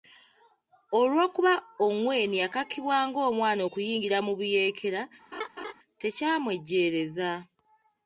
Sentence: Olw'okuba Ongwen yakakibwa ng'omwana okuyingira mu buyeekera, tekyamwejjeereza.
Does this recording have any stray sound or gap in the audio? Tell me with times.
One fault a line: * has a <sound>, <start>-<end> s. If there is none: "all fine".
* has a laugh, 5.3-5.7 s